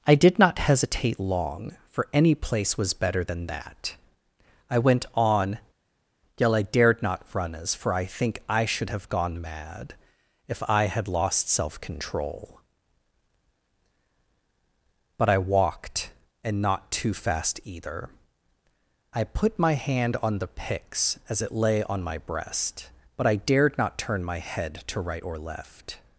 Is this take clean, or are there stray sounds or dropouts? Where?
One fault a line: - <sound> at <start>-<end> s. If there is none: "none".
none